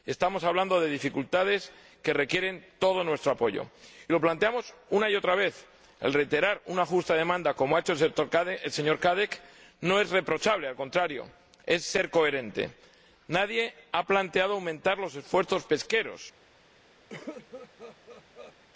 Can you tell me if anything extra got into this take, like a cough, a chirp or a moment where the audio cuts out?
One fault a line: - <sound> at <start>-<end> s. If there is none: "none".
- cough at 17.1-18.5 s